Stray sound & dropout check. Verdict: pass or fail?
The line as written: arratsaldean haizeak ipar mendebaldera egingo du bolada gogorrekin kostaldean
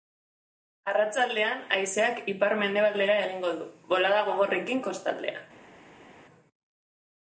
pass